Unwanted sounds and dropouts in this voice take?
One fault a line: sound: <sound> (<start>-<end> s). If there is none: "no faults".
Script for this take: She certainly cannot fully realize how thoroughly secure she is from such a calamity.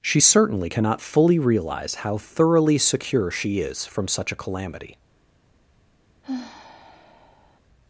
sound: sigh (6.2-7.6 s)